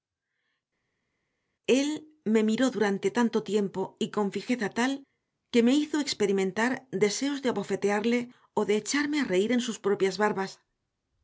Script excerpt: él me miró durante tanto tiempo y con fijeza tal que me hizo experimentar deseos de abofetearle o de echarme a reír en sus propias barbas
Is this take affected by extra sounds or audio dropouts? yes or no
no